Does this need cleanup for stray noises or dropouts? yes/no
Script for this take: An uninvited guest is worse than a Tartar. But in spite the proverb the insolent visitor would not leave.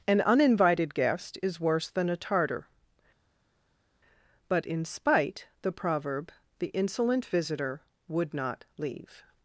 no